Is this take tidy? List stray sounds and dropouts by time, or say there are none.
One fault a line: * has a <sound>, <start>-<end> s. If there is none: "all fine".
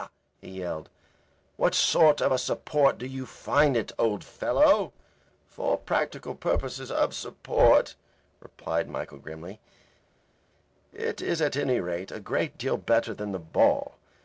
all fine